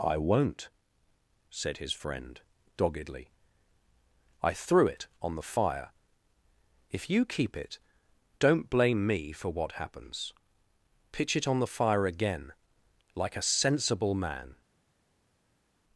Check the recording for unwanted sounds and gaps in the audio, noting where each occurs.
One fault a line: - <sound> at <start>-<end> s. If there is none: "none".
none